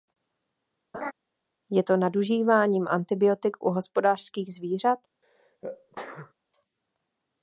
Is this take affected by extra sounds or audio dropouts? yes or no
yes